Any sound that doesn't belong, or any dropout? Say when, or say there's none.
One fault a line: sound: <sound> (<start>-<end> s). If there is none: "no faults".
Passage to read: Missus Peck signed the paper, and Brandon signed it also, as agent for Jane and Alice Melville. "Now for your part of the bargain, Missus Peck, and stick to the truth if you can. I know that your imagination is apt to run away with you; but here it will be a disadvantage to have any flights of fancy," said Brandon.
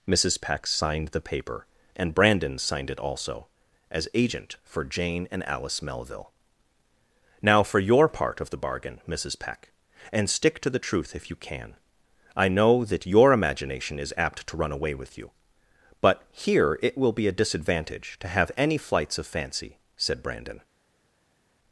no faults